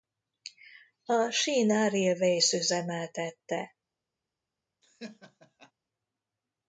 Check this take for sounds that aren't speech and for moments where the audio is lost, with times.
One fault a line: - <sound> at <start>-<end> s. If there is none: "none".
- laugh at 4.8-5.7 s